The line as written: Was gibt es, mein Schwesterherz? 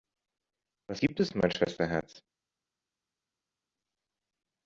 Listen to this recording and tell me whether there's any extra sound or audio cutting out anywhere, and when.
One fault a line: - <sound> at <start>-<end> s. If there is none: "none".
none